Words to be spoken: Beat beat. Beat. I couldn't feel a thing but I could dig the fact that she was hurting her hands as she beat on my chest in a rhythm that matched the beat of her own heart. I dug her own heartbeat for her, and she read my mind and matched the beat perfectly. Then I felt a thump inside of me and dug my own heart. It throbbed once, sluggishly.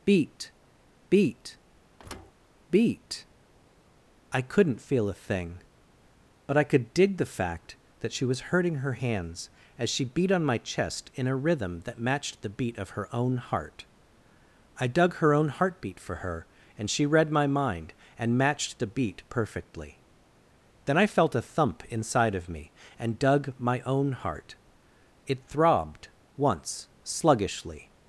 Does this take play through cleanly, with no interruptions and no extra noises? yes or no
no